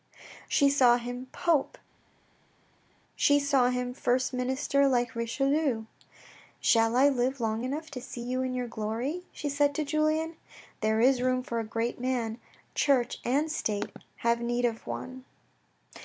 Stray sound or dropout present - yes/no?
no